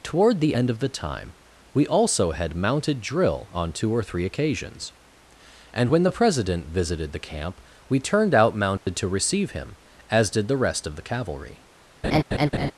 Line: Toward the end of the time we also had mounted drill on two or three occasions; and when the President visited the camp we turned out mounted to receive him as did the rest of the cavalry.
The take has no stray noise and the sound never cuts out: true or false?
false